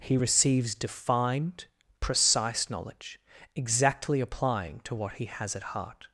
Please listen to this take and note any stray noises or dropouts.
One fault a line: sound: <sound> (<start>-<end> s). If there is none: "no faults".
no faults